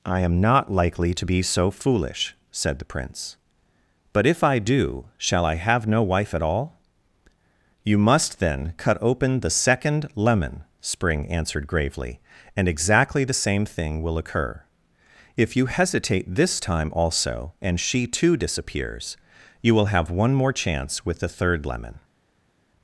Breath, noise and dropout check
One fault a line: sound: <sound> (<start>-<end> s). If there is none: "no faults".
no faults